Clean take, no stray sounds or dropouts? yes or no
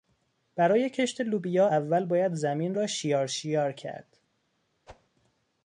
no